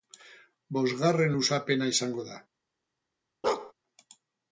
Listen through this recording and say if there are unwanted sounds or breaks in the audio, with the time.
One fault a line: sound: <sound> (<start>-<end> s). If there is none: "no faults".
sound: bark (3.4-3.7 s)